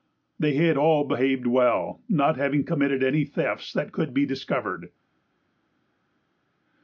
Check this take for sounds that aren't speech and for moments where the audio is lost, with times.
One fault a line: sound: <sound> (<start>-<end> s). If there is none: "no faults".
no faults